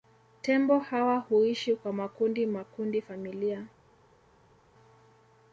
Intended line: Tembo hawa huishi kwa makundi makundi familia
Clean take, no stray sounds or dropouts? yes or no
yes